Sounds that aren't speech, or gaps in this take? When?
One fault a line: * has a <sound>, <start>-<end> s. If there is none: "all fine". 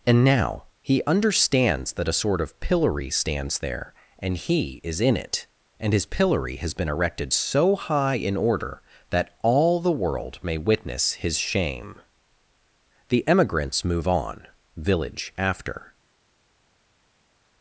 all fine